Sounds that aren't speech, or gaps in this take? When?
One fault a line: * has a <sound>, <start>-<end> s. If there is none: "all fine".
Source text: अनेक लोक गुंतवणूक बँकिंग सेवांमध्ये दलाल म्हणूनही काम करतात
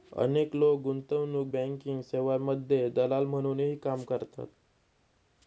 all fine